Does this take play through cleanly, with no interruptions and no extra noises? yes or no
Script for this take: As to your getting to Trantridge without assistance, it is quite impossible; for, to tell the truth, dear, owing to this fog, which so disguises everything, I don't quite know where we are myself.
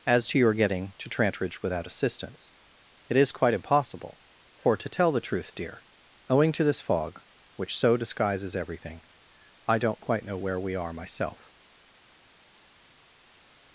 yes